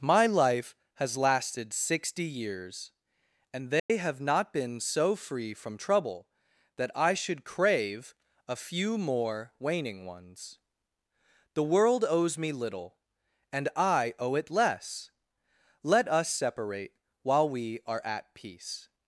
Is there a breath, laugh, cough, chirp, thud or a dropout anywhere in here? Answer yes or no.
yes